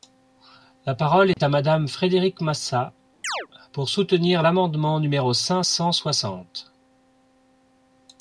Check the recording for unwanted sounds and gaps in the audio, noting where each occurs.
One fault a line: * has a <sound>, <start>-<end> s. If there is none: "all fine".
* has a dropout, 1.3-1.4 s
* has a chirp, 3.2-3.5 s